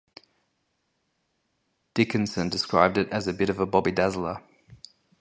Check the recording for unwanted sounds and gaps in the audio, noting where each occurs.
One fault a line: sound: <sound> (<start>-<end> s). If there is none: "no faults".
no faults